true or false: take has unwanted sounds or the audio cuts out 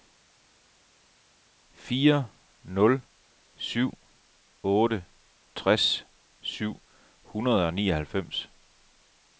false